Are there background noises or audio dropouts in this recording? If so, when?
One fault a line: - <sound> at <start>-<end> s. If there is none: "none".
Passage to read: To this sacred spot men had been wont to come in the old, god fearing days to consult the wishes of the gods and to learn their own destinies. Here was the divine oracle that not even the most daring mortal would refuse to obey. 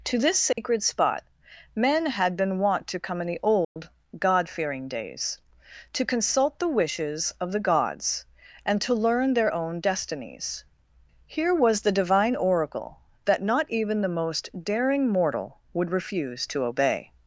- dropout at 0.5-0.6 s
- dropout at 3.6-3.8 s